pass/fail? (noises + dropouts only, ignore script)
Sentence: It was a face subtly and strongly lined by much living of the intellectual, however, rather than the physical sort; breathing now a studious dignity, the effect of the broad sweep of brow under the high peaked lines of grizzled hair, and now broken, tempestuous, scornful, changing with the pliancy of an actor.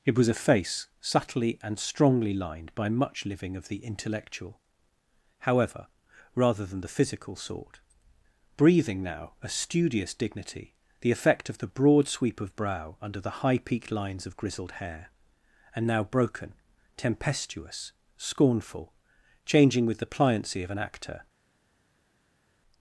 pass